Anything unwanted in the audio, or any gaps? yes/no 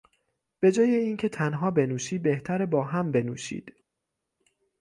no